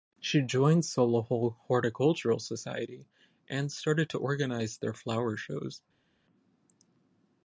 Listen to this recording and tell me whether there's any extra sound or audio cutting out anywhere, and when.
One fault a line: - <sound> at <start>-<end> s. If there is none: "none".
none